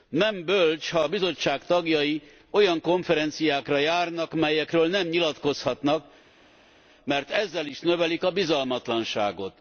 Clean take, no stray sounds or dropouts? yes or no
yes